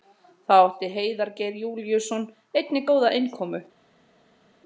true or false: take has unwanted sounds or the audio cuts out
false